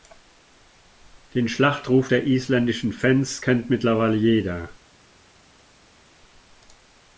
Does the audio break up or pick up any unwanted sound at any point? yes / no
no